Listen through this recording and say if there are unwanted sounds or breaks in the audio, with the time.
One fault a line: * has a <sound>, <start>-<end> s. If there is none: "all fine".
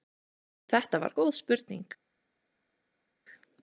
all fine